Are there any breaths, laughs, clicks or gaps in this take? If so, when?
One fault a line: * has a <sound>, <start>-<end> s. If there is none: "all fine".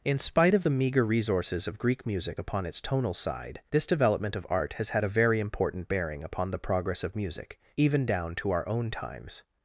all fine